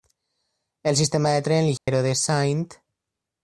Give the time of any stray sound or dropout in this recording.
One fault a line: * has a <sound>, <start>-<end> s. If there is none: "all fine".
* has a dropout, 1.8-1.9 s